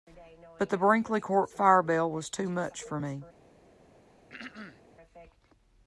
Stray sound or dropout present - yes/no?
yes